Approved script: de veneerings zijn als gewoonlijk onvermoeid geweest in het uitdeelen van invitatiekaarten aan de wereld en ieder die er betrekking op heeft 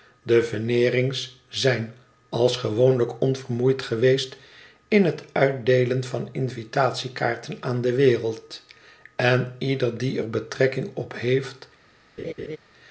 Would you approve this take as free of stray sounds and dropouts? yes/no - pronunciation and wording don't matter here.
no